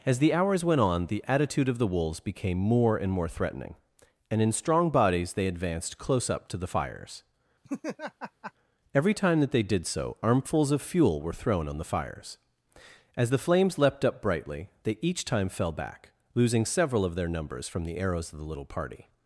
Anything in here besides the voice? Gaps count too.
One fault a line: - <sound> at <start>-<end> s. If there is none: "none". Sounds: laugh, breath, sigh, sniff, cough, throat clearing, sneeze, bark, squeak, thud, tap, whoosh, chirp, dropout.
- laugh at 7.6-8.5 s